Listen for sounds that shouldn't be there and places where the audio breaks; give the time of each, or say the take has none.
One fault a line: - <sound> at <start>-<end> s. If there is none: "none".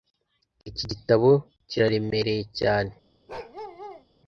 - bark at 3.3-4.0 s